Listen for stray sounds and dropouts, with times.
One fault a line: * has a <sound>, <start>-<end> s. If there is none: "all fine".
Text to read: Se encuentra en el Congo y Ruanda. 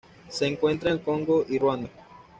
all fine